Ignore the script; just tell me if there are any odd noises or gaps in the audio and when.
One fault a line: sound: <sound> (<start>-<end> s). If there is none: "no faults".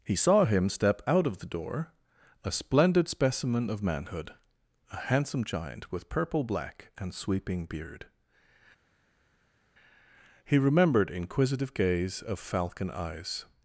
no faults